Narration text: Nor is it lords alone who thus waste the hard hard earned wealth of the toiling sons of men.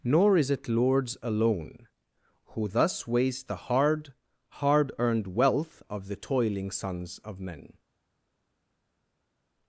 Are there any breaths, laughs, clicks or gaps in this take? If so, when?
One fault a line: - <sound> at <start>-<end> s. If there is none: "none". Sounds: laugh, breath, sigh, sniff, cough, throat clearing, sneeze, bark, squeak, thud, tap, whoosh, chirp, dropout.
none